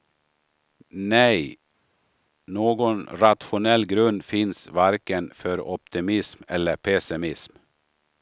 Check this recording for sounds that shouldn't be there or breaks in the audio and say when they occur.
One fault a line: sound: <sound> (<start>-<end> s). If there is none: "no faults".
no faults